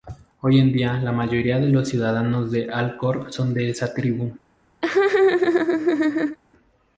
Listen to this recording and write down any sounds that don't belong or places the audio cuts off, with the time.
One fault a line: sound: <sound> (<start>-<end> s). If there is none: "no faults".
sound: laugh (4.8-6.4 s)